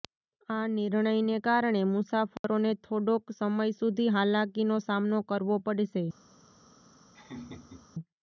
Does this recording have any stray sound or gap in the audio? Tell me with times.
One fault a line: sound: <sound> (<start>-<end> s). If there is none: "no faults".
sound: dropout (2.4-2.4 s)
sound: laugh (7.1-7.9 s)